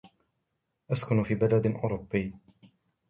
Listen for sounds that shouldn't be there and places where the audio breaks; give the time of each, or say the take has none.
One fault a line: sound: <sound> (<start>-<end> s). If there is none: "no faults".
no faults